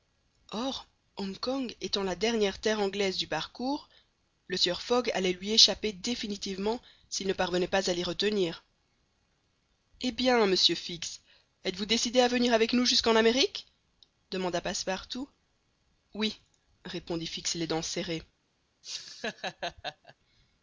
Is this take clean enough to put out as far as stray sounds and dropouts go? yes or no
no